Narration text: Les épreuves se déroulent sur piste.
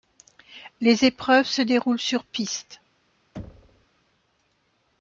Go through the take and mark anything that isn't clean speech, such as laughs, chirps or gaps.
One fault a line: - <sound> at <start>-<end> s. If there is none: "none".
- thud at 3.4-3.9 s